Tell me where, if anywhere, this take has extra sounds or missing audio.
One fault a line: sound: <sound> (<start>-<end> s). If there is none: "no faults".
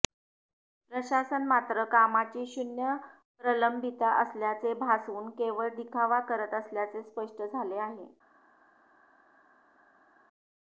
no faults